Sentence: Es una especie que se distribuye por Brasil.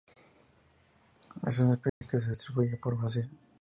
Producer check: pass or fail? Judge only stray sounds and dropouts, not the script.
fail